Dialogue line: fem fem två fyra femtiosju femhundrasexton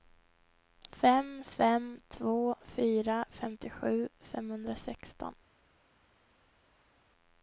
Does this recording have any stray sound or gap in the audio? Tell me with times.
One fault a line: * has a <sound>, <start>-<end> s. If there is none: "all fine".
all fine